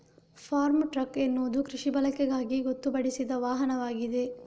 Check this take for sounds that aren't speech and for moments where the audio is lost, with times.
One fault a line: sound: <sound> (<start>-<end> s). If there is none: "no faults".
no faults